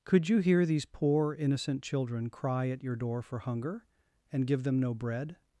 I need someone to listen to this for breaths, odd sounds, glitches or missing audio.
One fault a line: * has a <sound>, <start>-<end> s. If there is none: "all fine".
all fine